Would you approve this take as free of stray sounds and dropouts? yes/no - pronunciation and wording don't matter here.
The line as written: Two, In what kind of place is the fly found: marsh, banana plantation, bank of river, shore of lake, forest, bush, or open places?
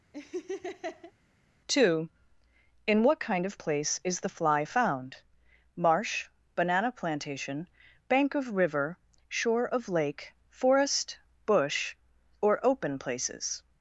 no